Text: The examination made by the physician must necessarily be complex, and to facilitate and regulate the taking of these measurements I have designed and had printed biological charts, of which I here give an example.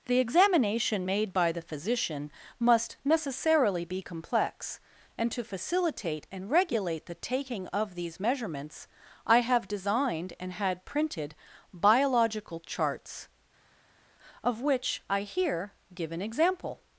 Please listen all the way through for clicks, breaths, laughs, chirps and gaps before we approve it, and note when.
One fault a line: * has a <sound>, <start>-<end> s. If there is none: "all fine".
all fine